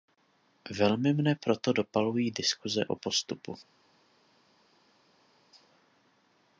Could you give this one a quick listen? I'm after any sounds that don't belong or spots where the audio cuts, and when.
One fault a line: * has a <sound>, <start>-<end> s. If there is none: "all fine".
all fine